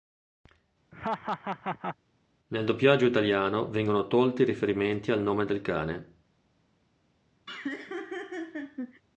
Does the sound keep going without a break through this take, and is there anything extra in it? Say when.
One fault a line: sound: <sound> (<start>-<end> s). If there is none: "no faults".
sound: laugh (0.9-2.0 s)
sound: laugh (7.5-9.0 s)